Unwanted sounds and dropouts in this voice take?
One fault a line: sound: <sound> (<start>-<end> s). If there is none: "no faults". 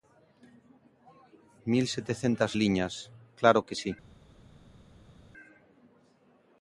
no faults